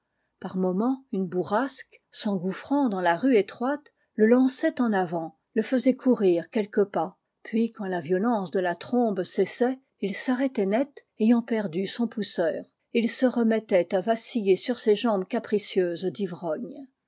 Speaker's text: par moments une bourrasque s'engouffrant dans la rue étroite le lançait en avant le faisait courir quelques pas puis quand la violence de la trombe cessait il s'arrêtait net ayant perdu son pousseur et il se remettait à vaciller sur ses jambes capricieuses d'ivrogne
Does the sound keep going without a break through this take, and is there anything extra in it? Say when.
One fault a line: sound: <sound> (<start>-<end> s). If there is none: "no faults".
no faults